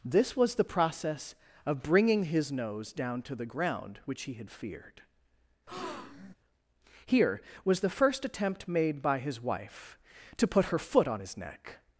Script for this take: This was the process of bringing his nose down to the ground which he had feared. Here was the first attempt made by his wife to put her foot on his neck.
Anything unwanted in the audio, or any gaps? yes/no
yes